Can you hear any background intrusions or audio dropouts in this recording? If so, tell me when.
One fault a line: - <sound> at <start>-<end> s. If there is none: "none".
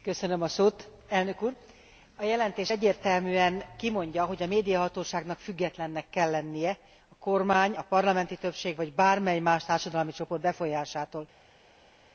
none